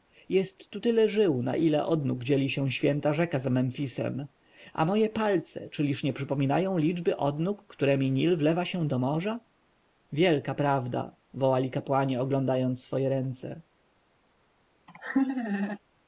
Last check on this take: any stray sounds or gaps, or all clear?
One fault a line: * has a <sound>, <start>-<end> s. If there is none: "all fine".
* has a laugh, 14.9-15.8 s